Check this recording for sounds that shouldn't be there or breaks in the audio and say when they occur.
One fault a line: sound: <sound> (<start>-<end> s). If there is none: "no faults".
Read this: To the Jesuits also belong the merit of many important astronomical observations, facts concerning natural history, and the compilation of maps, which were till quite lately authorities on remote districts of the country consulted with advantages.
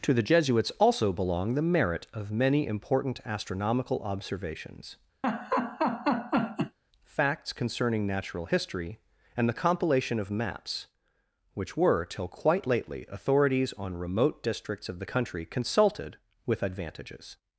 sound: laugh (5.2-6.8 s)